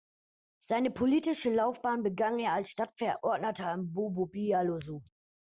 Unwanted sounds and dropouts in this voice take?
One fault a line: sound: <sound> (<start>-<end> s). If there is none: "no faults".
no faults